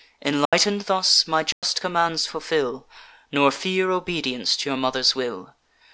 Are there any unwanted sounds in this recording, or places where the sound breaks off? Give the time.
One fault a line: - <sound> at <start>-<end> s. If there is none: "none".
- dropout at 0.5-0.5 s
- dropout at 1.5-1.6 s